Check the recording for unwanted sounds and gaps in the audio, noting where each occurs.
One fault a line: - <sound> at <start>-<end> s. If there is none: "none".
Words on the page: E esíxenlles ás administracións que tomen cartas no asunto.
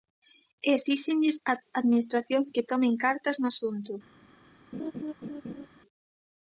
- laugh at 4.7-5.7 s